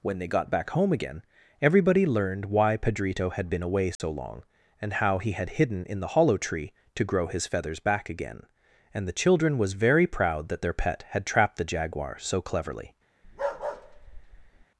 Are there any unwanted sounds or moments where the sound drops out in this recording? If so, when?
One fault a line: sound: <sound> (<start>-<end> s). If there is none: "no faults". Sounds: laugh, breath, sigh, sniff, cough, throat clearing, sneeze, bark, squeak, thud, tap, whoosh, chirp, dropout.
sound: dropout (4.0-4.0 s)
sound: bark (13.2-14.7 s)